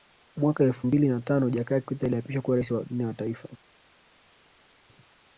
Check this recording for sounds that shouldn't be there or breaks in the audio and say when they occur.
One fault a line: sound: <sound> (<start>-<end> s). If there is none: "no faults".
no faults